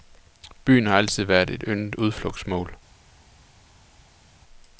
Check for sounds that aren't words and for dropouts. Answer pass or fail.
pass